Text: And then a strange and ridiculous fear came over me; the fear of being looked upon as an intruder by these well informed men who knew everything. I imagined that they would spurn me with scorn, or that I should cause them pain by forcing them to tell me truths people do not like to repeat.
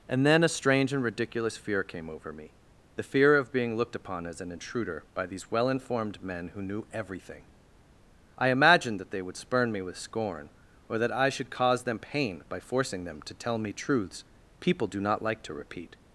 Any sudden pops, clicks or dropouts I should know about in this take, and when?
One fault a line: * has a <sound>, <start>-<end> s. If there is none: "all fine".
all fine